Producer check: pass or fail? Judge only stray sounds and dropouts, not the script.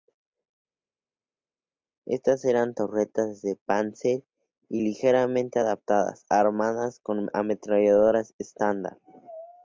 pass